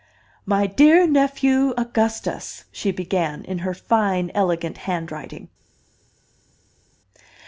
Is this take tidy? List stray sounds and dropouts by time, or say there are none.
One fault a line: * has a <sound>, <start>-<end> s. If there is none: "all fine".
all fine